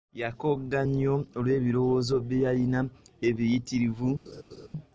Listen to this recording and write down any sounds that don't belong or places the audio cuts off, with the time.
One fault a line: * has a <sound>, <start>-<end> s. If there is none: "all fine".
* has a laugh, 4.3-4.7 s